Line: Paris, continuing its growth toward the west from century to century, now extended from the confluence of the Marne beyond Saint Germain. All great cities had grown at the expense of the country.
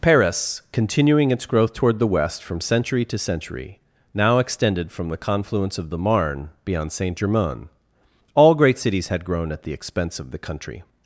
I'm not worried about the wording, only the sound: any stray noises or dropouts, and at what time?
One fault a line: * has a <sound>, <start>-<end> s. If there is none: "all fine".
all fine